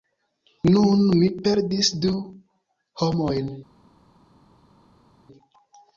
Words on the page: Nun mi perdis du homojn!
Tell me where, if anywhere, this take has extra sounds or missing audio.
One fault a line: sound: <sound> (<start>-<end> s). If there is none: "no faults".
no faults